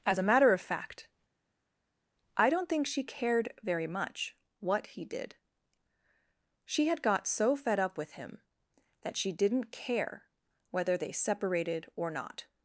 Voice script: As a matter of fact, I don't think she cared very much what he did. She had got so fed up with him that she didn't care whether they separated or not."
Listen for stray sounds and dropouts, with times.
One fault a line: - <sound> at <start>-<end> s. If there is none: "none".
none